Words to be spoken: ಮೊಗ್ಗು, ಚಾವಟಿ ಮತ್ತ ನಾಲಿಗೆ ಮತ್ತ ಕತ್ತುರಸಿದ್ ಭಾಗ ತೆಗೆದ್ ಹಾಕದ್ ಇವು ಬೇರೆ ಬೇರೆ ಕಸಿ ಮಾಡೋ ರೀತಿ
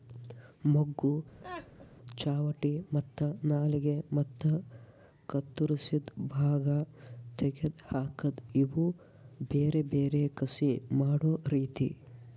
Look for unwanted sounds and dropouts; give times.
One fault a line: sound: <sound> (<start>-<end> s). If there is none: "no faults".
sound: laugh (1.4-1.9 s)